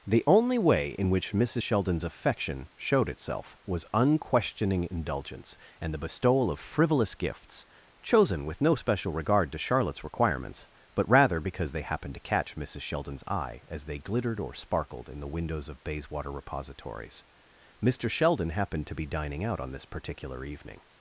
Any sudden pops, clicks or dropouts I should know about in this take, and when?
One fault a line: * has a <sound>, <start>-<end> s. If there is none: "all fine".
all fine